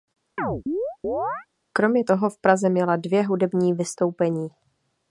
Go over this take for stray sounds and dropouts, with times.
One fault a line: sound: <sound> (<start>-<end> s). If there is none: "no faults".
sound: chirp (0.4-1.5 s)